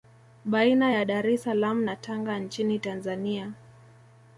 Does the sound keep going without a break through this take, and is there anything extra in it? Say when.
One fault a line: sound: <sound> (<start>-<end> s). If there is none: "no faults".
no faults